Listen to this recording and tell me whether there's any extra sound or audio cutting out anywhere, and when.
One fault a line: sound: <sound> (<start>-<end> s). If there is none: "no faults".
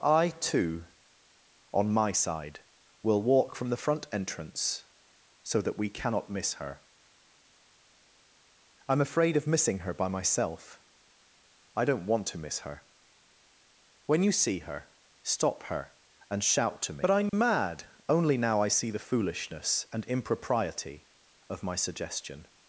sound: dropout (17.3-17.3 s)